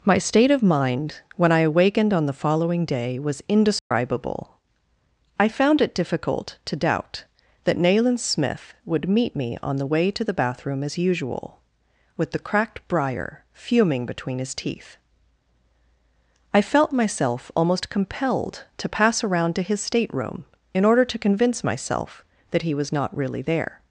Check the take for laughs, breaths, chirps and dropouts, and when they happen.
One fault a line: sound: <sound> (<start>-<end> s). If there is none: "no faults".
sound: dropout (3.8-3.9 s)